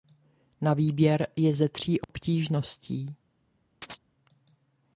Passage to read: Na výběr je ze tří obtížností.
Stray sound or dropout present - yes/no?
yes